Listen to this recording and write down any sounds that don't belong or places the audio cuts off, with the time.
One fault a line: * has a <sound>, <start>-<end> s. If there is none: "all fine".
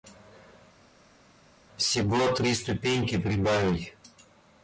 all fine